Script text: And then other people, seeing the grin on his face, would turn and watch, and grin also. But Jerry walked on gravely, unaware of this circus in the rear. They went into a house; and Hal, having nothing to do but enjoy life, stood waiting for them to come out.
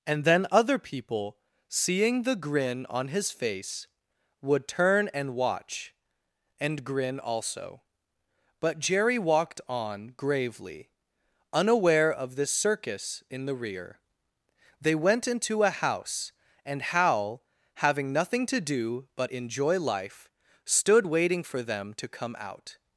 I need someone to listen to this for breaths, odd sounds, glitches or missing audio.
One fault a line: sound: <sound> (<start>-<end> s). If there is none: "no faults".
no faults